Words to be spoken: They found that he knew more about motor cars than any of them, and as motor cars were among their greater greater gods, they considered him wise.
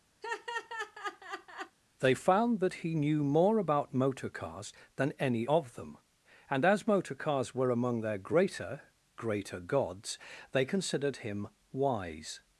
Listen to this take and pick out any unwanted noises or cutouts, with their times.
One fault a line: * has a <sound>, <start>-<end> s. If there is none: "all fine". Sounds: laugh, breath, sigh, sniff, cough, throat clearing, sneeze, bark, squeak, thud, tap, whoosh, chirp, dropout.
* has a laugh, 0.2-1.8 s